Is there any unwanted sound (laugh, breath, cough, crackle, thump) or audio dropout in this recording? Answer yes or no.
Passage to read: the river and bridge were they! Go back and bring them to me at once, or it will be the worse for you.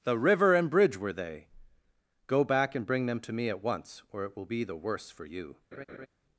yes